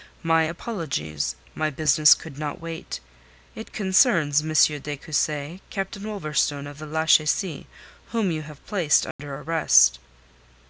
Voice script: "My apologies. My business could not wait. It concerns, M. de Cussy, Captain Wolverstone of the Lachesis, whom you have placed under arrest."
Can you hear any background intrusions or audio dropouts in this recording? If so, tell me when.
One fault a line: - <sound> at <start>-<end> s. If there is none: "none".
- dropout at 9.1-9.2 s